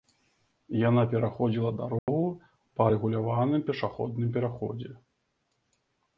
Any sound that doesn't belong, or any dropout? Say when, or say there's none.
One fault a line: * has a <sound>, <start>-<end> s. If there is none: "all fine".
* has a dropout, 2.0-2.1 s